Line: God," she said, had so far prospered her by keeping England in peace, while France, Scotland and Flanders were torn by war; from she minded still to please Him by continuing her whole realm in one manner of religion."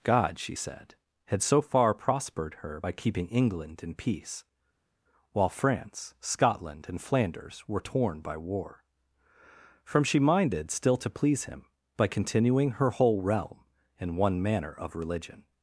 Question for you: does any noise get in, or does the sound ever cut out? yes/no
no